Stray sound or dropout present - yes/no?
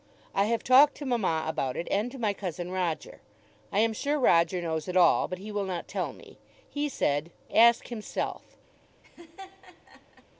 yes